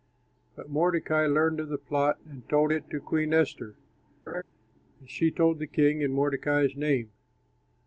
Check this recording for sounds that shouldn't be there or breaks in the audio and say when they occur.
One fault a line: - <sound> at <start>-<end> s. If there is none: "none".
- laugh at 4.3-4.4 s